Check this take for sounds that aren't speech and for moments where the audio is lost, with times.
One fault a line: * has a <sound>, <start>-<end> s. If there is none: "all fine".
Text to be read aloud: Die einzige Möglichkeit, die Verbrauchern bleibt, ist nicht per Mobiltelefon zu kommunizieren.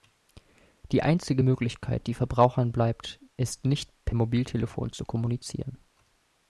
all fine